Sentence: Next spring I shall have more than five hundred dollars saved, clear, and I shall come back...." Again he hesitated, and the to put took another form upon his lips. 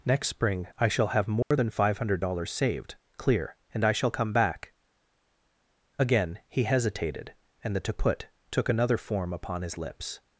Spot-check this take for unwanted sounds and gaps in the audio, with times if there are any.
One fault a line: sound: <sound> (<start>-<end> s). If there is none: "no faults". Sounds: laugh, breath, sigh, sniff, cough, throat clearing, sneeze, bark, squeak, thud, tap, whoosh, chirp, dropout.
sound: dropout (1.4-1.5 s)